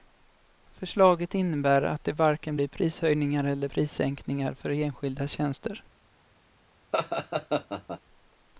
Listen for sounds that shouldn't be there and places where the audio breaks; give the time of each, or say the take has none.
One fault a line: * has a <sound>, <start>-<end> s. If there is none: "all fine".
* has a laugh, 6.9-8.0 s